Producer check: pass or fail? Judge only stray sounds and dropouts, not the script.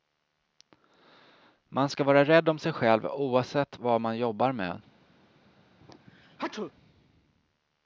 fail